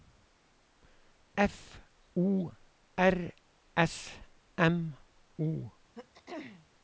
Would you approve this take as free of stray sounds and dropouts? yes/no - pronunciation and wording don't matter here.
no